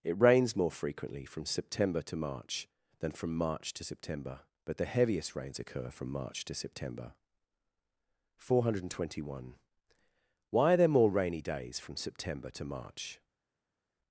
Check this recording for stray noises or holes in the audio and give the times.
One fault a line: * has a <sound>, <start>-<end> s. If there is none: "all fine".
all fine